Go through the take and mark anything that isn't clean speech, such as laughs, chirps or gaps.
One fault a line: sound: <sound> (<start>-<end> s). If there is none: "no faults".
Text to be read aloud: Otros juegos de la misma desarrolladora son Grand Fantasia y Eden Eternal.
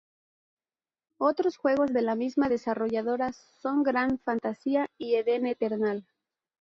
no faults